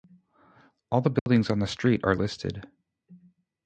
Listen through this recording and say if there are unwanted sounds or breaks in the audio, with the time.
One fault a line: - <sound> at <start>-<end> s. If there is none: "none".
- dropout at 1.2-1.3 s